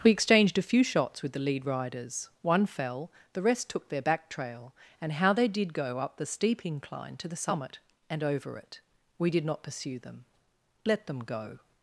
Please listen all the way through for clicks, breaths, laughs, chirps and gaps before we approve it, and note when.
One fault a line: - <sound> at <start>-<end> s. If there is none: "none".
none